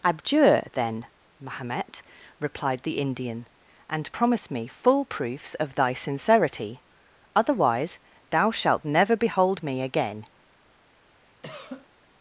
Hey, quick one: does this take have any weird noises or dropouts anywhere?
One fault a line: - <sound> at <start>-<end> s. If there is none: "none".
- cough at 11.4-11.9 s